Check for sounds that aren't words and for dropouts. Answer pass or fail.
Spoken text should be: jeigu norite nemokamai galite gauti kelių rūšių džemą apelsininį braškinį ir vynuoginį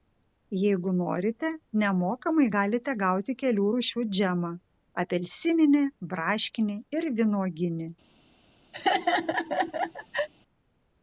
fail